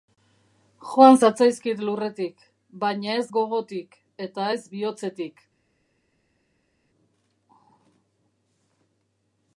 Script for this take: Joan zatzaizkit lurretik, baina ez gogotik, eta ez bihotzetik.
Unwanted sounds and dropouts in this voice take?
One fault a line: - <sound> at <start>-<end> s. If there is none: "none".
none